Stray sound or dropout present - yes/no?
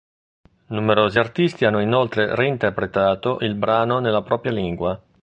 no